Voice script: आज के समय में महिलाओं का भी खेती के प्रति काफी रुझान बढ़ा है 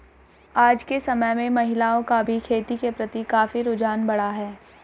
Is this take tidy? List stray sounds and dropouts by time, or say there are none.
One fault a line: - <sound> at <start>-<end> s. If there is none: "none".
none